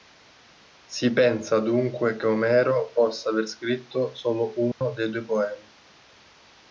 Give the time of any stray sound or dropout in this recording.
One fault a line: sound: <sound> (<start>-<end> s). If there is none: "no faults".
sound: dropout (4.7-4.8 s)